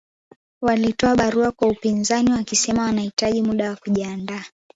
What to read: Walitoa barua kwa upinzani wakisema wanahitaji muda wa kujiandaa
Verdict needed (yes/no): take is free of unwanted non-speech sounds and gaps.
yes